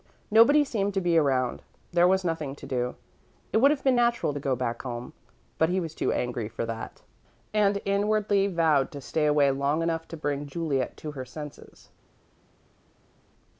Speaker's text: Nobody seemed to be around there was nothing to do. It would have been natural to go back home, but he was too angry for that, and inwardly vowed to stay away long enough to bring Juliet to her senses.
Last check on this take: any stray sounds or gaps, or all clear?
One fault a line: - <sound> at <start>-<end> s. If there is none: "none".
none